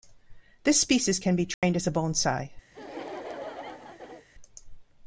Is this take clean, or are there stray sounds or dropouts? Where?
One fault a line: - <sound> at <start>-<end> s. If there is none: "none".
- dropout at 1.5-1.6 s
- laugh at 2.7-4.3 s